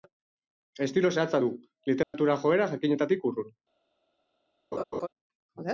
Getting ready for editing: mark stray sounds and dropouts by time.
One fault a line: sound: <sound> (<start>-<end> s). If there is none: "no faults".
sound: dropout (2.0-2.1 s)
sound: laugh (4.7-5.1 s)